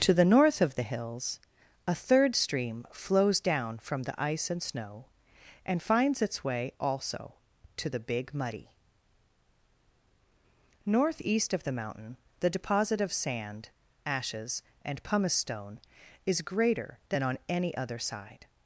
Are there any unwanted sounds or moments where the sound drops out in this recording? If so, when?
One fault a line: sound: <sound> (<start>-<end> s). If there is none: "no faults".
no faults